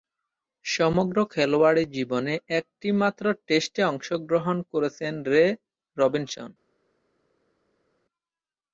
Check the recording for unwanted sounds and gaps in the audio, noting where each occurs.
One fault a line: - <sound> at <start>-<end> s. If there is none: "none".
none